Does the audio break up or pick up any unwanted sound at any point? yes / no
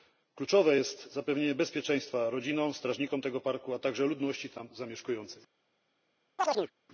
yes